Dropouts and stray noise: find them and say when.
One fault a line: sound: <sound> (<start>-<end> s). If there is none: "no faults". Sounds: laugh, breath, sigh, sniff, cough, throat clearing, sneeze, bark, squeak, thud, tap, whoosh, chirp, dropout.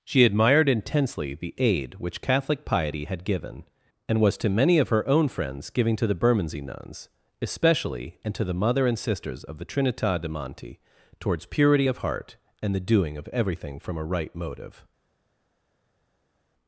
no faults